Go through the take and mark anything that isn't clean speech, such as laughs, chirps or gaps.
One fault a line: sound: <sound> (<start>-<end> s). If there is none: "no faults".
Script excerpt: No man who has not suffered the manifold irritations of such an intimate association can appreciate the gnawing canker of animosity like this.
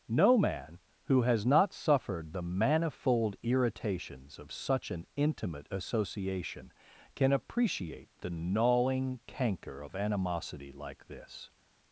no faults